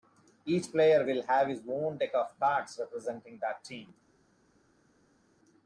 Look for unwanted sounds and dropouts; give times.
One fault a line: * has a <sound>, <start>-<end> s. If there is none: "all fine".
all fine